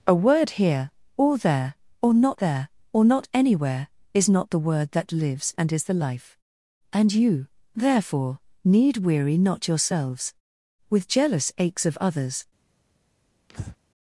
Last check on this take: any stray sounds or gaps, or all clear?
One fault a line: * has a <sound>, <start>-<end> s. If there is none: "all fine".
* has a breath, 13.5-13.8 s